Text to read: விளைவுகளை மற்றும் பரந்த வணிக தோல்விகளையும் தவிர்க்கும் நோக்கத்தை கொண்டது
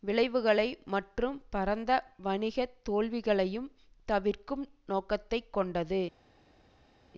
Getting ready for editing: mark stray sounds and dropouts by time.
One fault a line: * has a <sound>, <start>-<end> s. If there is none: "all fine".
all fine